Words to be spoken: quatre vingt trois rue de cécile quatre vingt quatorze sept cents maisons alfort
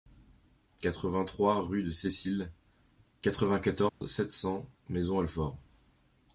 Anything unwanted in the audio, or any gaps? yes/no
yes